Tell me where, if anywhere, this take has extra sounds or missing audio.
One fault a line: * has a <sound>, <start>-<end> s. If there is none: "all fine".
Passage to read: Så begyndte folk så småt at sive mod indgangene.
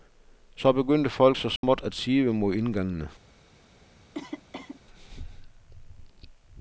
* has a dropout, 1.6-1.6 s
* has a cough, 4.1-4.8 s